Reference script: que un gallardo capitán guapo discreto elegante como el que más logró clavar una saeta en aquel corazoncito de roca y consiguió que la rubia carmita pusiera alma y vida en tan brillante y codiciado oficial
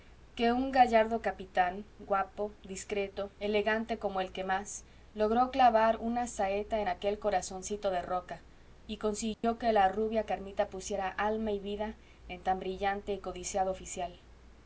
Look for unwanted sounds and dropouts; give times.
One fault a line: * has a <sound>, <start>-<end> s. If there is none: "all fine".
* has a dropout, 9.3-9.4 s